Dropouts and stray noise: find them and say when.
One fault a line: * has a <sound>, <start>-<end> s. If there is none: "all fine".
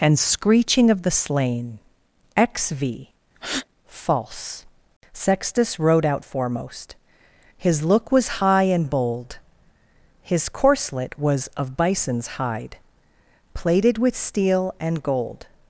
* has a breath, 3.3-3.7 s